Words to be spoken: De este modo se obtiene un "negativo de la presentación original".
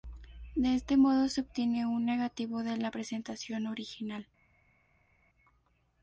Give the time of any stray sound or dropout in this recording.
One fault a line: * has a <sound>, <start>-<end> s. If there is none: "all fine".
all fine